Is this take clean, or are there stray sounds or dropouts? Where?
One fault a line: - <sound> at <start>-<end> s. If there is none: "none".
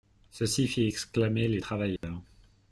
- dropout at 2.0-2.0 s